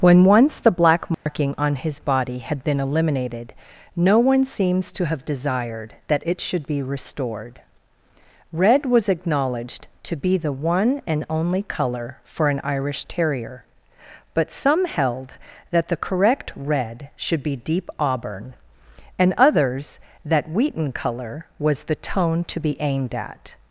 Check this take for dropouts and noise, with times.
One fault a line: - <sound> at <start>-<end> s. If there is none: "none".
- dropout at 1.1-1.3 s